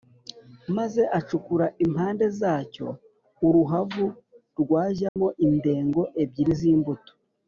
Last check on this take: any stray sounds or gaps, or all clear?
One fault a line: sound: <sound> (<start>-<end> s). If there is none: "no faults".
sound: dropout (5.1-5.2 s)